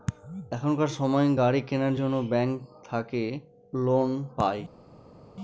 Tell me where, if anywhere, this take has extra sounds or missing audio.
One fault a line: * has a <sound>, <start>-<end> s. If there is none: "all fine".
all fine